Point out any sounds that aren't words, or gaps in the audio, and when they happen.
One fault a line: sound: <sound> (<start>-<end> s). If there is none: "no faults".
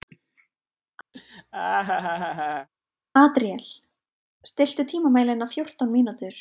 sound: laugh (1.1-2.7 s)